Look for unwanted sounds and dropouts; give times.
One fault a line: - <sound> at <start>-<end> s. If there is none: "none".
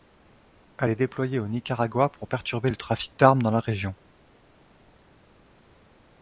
none